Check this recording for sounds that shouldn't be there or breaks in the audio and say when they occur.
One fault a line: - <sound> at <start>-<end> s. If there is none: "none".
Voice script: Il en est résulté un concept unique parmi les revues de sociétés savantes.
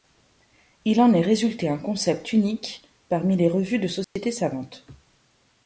- dropout at 4.0-4.2 s